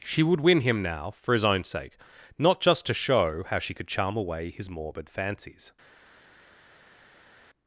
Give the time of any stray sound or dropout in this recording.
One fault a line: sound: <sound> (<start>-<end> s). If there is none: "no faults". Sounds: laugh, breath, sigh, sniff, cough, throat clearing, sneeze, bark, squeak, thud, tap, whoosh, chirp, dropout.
no faults